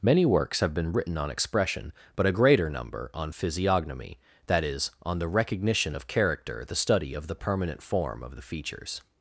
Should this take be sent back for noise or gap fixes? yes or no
no